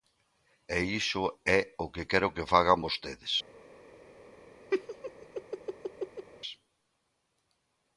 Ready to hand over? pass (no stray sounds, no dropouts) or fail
fail